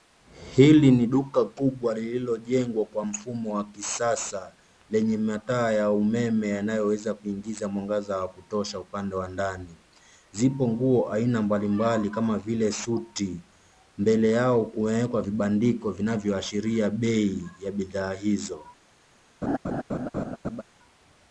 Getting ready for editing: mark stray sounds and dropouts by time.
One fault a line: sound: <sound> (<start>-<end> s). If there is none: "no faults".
sound: laugh (19.4-20.6 s)